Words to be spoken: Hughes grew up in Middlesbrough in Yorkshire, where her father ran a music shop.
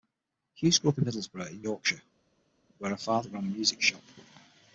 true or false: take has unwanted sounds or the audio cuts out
false